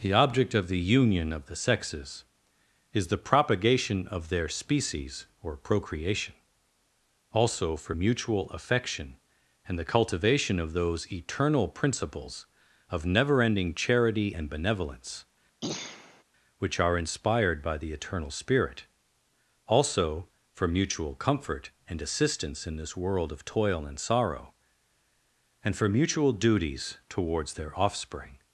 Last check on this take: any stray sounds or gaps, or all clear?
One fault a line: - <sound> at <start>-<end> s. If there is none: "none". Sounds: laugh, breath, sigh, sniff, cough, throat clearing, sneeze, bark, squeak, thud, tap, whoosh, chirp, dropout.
- throat clearing at 15.6-16.2 s